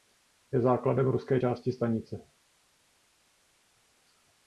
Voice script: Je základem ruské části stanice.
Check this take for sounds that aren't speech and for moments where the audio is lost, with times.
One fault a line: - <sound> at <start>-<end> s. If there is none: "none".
none